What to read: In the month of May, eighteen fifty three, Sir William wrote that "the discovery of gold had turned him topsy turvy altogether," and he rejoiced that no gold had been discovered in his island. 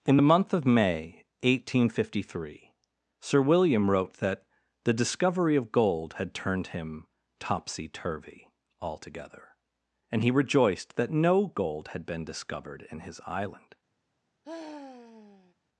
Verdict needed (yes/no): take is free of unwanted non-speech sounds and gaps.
no